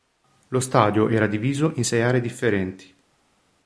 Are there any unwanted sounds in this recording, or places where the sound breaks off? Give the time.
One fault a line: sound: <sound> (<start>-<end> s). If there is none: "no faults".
no faults